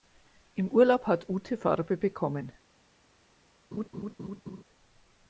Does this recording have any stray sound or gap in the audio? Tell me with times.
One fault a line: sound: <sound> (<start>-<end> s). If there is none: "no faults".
sound: laugh (3.7-4.6 s)